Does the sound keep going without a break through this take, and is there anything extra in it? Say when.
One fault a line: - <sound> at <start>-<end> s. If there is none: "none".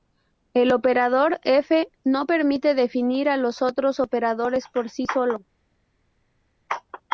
none